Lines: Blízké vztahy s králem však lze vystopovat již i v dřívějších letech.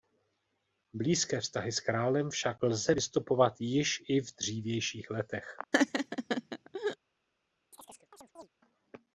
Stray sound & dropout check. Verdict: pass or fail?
fail